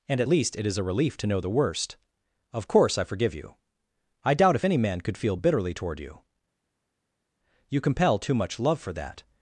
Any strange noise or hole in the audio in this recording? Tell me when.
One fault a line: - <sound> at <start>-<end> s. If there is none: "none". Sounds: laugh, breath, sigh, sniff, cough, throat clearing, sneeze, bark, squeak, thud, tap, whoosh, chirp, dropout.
none